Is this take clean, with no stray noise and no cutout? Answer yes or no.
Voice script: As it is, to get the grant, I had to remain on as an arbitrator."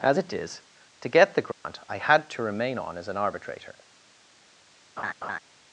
no